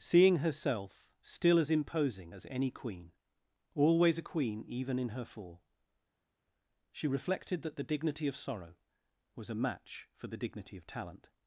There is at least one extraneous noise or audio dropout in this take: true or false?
false